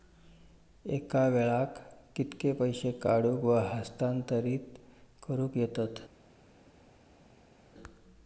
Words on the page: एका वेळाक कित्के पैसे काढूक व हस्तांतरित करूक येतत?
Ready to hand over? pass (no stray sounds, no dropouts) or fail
pass